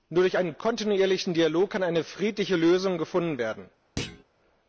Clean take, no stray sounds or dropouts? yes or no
no